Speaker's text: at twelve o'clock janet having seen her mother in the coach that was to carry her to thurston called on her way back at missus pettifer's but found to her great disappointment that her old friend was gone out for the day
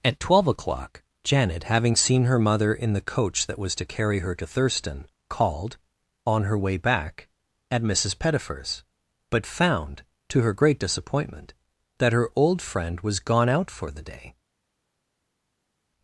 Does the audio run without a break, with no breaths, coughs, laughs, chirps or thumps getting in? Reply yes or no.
yes